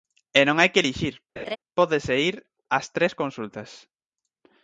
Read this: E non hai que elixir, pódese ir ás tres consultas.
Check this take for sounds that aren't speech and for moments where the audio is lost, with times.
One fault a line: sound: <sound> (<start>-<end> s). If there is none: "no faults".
sound: laugh (1.4-1.6 s)